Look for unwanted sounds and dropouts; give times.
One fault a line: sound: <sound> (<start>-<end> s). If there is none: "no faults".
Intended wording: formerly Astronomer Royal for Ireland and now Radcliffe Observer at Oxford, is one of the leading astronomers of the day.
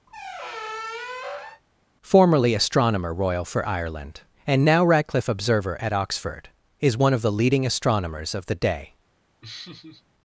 sound: squeak (0.1-1.6 s)
sound: laugh (9.4-10.0 s)